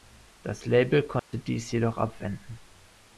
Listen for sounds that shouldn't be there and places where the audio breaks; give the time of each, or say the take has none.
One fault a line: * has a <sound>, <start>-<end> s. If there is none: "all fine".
* has a dropout, 1.2-1.3 s